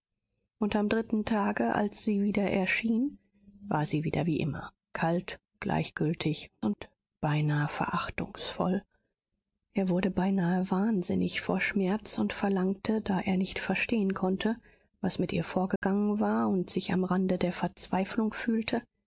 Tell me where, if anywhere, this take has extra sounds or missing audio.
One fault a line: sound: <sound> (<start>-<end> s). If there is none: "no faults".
sound: dropout (15.8-15.8 s)